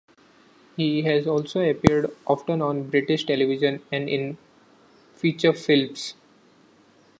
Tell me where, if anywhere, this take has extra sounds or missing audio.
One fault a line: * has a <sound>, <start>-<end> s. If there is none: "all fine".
all fine